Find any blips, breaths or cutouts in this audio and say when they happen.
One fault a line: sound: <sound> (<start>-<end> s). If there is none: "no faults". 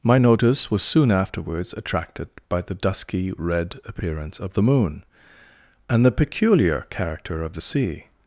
no faults